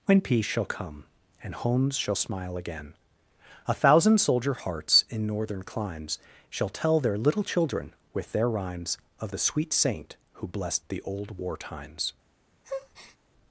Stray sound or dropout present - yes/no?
yes